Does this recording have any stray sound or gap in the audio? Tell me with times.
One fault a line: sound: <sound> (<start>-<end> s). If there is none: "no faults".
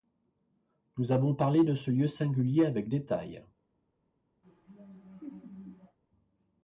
sound: laugh (4.4-6.0 s)